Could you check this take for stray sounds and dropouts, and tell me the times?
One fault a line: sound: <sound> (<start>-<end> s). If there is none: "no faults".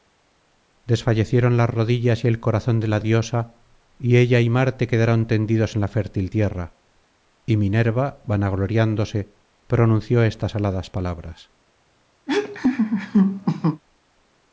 sound: laugh (12.3-13.8 s)